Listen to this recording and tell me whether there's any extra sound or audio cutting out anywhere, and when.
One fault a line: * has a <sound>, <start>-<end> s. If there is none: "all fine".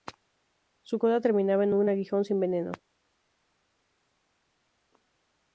all fine